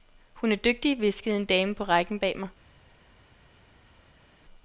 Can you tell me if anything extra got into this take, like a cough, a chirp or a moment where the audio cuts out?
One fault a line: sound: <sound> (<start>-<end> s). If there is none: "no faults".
no faults